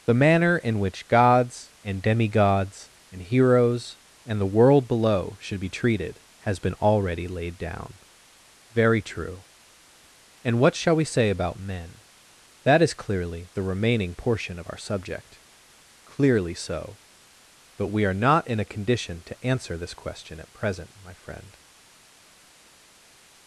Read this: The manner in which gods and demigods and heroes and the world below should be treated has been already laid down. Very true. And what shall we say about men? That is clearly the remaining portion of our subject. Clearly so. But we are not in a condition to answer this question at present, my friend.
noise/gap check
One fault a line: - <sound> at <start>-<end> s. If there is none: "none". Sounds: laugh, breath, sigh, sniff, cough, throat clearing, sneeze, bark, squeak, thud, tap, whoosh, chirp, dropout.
none